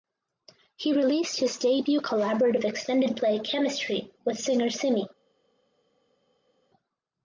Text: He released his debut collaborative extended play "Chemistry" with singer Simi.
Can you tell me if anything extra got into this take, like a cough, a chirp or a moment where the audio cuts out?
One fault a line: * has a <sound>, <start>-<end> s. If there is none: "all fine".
all fine